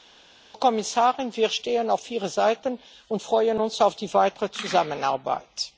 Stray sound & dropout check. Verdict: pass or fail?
pass